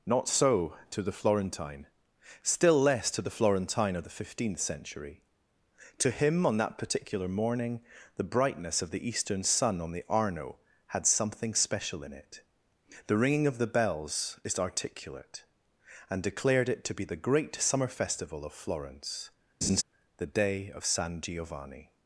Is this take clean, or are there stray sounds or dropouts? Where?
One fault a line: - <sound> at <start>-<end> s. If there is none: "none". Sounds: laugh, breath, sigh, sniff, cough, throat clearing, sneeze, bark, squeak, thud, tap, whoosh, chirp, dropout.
- laugh at 19.6-19.8 s